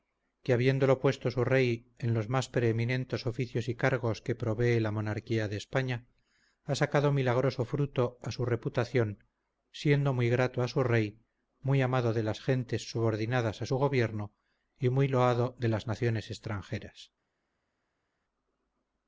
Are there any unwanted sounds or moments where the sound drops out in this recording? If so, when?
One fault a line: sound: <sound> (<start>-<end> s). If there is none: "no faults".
no faults